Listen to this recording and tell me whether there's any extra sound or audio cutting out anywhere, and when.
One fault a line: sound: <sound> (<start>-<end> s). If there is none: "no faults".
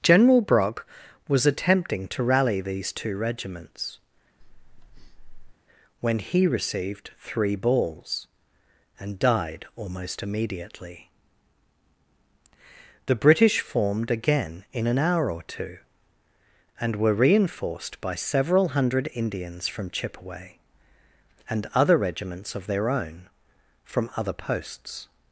sound: breath (4.4-5.5 s)